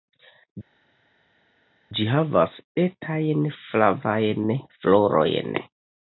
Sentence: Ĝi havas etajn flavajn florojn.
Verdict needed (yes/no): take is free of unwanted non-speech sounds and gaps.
yes